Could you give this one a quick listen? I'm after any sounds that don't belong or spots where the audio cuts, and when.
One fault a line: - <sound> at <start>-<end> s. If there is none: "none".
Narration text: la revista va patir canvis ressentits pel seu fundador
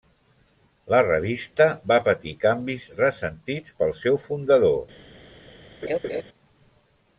- laugh at 5.8-6.2 s